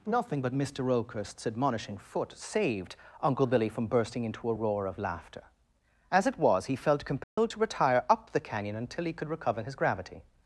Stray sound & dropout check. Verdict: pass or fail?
fail